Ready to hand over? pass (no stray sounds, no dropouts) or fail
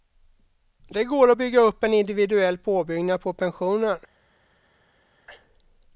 pass